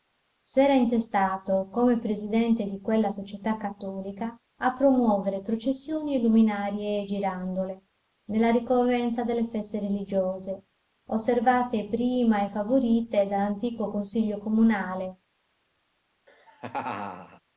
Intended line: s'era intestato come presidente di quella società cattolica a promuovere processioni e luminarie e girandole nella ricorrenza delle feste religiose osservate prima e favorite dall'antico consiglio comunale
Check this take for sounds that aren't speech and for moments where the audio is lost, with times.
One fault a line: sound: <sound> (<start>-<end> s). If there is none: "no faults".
sound: laugh (16.3-17.4 s)